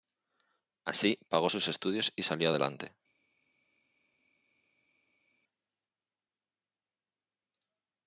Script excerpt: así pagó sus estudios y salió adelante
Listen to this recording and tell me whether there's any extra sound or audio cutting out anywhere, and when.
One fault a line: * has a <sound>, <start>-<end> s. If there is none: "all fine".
all fine